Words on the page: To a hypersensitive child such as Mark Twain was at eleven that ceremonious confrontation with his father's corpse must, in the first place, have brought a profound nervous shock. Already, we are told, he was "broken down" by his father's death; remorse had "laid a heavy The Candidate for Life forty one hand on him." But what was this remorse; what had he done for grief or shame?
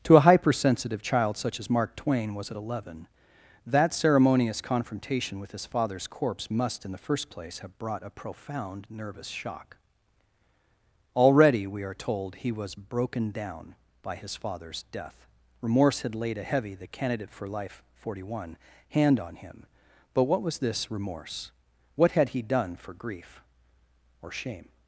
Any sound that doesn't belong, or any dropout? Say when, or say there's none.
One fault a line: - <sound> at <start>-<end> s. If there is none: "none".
none